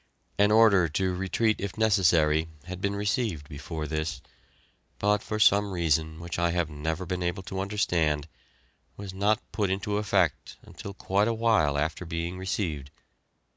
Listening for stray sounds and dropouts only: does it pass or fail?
pass